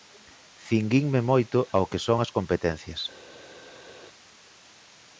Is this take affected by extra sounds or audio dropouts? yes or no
no